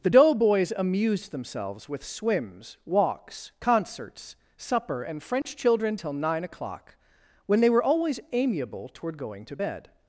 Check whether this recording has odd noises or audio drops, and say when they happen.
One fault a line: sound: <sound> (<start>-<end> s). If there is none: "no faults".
sound: dropout (5.4-5.5 s)